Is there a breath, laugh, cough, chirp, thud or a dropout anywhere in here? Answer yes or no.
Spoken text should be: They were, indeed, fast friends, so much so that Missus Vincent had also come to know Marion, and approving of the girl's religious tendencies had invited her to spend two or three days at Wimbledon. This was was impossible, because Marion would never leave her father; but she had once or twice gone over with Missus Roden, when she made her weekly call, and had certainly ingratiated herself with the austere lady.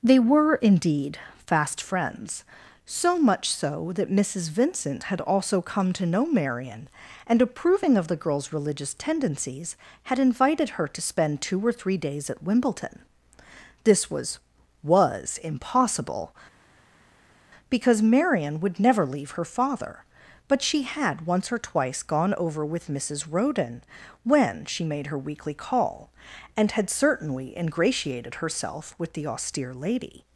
no